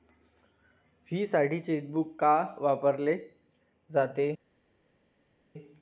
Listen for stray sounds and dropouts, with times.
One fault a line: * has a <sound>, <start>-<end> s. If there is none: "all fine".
all fine